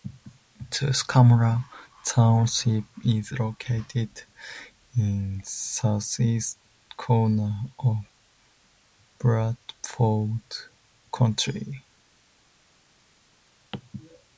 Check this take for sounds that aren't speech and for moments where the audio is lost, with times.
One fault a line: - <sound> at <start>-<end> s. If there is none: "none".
none